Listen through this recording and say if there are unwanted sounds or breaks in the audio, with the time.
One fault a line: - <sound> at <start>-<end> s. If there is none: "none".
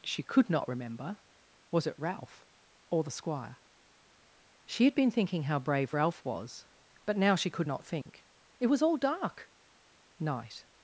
- dropout at 8.0-8.1 s